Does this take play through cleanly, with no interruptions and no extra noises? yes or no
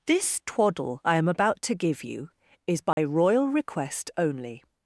no